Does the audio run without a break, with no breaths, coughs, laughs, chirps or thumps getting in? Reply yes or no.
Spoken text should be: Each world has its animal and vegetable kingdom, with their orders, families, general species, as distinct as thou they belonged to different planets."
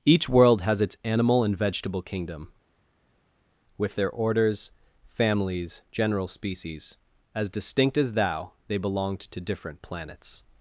yes